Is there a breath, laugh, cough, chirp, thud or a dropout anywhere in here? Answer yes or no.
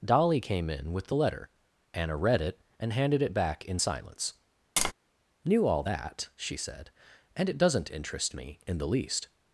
yes